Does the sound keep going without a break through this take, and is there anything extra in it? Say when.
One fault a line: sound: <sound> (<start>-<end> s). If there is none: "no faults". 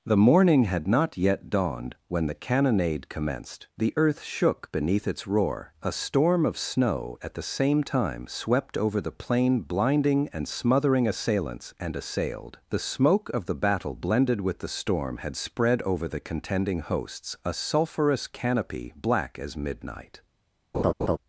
sound: laugh (20.7-21.2 s)